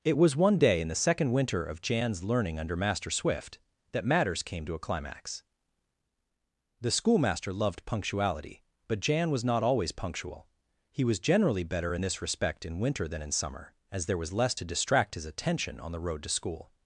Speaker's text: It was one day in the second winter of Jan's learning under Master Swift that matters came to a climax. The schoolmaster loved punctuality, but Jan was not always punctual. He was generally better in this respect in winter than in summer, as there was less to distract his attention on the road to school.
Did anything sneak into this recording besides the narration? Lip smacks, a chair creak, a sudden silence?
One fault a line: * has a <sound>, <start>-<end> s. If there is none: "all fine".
all fine